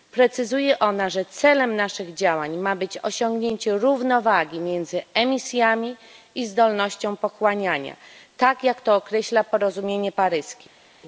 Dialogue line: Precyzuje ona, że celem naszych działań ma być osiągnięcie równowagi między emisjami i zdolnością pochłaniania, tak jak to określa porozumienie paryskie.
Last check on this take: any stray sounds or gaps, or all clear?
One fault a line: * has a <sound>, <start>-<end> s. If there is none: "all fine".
all fine